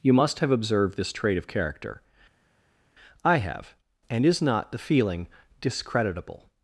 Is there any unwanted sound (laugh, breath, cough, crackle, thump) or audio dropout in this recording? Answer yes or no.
no